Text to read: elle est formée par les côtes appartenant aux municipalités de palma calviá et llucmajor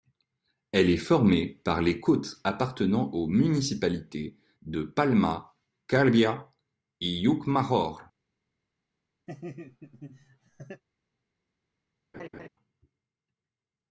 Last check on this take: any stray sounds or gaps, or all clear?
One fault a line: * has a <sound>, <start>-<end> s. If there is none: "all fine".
* has a laugh, 9.3-10.8 s
* has a laugh, 12.1-12.5 s